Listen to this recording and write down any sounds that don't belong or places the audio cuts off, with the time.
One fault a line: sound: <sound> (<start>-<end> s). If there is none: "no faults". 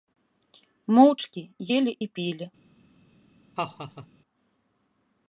sound: laugh (3.6-4.1 s)